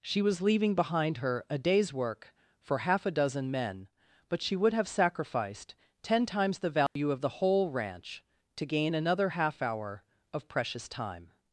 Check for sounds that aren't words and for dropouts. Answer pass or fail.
fail